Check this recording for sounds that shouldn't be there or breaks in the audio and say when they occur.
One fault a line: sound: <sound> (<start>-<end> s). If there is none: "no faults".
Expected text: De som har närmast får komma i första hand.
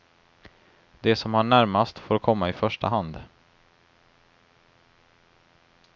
no faults